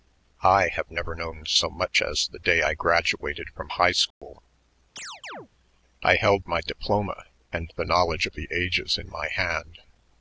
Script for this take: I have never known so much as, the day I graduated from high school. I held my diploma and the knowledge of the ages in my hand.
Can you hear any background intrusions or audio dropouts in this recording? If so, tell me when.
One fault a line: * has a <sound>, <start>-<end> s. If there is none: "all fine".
* has a dropout, 4.1-4.2 s
* has a chirp, 5.0-5.5 s